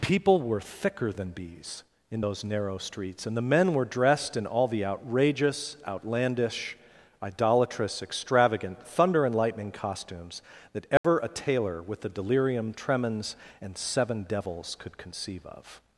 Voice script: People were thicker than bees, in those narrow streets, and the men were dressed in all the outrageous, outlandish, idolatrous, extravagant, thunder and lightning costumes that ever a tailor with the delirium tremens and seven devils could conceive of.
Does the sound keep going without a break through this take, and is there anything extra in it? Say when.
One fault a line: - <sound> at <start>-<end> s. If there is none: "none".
- dropout at 11.0-11.0 s